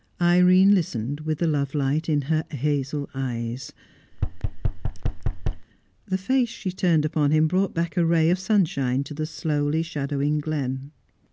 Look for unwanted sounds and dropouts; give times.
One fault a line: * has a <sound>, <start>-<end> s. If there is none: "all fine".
* has a thud, 4.1-5.7 s